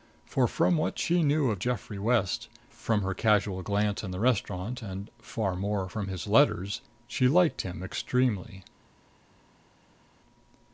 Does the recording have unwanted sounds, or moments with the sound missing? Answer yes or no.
no